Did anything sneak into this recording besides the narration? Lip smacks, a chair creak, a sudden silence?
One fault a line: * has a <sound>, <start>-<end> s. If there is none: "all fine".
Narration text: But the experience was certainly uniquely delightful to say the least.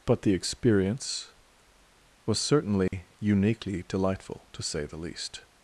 * has a dropout, 2.9-2.9 s